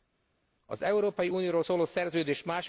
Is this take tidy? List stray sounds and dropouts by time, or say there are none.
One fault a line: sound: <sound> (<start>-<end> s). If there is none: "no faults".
no faults